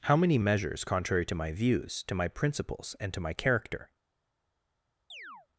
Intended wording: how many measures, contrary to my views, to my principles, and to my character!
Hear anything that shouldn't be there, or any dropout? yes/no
yes